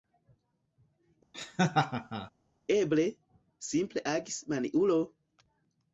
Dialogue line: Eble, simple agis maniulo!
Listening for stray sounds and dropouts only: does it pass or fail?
fail